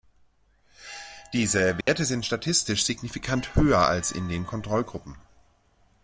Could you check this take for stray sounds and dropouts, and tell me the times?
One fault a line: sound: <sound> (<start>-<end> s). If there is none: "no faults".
sound: dropout (1.8-1.9 s)